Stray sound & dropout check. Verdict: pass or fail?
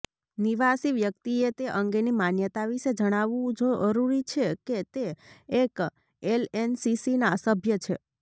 pass